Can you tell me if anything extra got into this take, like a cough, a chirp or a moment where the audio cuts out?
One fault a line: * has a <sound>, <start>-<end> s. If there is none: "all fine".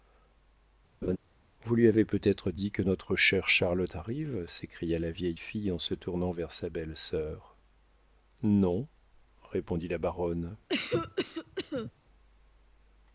* has a laugh, 1.0-1.2 s
* has a cough, 10.7-11.9 s